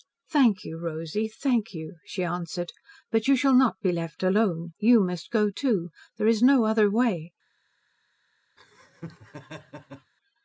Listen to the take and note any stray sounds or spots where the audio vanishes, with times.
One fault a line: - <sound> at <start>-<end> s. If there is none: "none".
- laugh at 8.6-10.1 s